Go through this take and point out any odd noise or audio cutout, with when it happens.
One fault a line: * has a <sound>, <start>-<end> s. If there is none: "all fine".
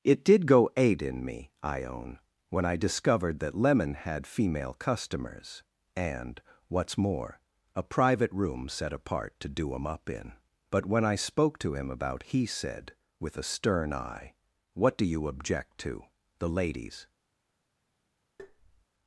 * has a tap, 18.4-18.9 s